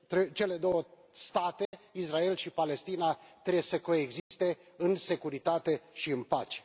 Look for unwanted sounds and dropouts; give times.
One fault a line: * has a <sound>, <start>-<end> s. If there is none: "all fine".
* has a dropout, 1.6-1.7 s
* has a dropout, 4.2-4.3 s